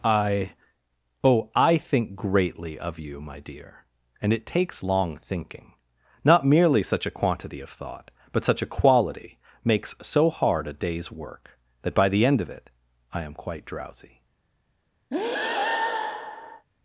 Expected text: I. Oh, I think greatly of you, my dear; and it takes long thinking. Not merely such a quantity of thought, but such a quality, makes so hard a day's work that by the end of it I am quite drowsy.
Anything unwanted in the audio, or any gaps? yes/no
yes